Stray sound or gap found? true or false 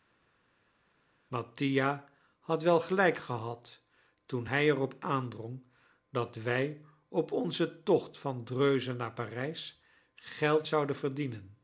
false